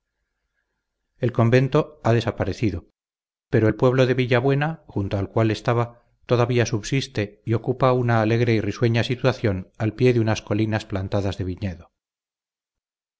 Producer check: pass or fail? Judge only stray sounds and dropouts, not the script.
pass